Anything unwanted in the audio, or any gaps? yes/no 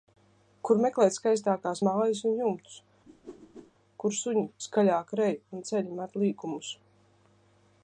yes